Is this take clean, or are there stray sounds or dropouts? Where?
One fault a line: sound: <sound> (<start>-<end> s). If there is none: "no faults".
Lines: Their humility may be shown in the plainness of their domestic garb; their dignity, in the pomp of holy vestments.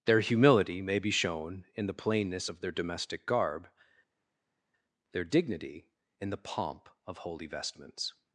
no faults